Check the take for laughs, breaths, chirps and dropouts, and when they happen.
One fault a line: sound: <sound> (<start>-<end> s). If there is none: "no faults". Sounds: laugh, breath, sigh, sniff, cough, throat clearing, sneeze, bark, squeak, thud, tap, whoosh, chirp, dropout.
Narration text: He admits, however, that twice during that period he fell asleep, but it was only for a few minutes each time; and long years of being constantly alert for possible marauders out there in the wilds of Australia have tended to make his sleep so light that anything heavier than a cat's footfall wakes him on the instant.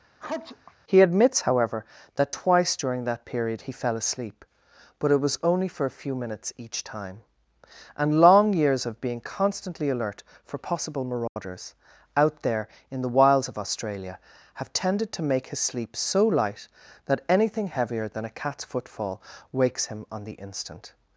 sound: sneeze (0.2-0.7 s)
sound: dropout (11.3-11.4 s)